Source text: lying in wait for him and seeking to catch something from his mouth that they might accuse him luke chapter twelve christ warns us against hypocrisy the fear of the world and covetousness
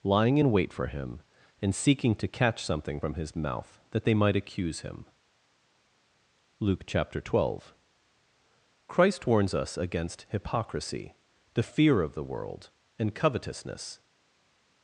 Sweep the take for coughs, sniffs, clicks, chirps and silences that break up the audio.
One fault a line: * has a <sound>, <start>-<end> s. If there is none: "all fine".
all fine